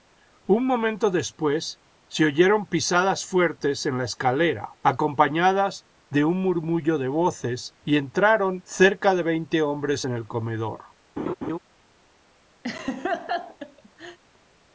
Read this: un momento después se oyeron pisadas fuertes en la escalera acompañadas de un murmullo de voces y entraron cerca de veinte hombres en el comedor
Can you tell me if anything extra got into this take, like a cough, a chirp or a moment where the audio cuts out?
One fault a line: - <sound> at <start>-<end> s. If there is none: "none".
- laugh at 11.2-11.6 s
- laugh at 12.6-14.2 s